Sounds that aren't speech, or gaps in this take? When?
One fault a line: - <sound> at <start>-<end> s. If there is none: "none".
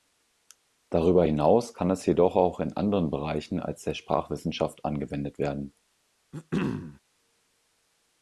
- throat clearing at 6.3-7.0 s